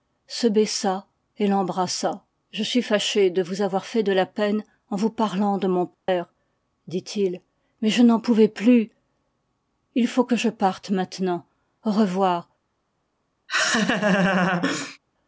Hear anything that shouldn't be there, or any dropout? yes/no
yes